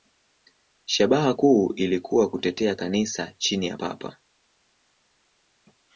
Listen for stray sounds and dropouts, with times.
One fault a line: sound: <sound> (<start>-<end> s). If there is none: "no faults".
no faults